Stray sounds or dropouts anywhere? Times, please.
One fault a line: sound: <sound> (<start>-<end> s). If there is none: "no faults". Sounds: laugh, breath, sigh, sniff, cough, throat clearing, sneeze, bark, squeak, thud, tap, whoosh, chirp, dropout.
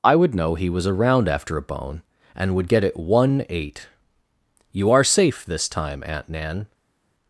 no faults